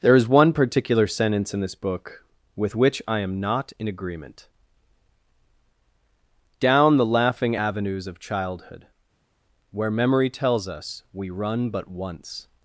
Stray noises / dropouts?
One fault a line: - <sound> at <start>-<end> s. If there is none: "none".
none